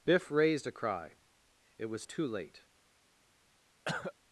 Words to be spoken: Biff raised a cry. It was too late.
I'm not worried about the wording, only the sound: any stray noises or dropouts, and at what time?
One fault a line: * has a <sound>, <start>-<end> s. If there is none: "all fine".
* has a cough, 3.9-4.1 s